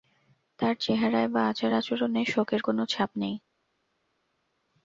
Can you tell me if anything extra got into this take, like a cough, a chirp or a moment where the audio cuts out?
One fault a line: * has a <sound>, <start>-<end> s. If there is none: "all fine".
all fine